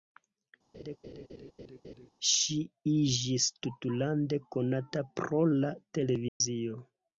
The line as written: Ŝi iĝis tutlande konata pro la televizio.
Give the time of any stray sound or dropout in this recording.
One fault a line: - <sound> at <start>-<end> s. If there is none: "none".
- laugh at 0.7-2.1 s
- dropout at 6.3-6.4 s